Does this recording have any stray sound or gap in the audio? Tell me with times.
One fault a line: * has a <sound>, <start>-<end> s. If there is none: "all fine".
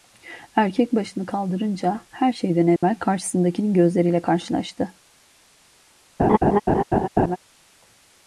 * has a dropout, 2.8-2.8 s
* has a laugh, 6.2-7.4 s